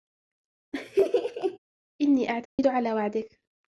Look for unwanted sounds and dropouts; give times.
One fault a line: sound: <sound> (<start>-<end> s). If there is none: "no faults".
sound: laugh (0.7-1.6 s)
sound: dropout (2.5-2.6 s)